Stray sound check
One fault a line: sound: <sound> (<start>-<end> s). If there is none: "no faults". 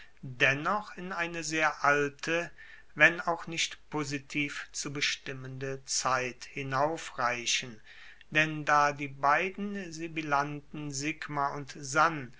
no faults